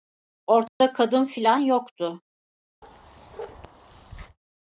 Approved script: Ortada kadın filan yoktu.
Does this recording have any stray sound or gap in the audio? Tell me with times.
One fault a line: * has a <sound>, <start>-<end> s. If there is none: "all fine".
* has a dropout, 0.7-0.8 s
* has a bark, 2.8-4.4 s